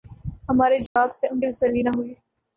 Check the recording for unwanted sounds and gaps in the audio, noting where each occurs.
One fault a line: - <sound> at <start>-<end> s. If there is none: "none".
- dropout at 0.9-1.0 s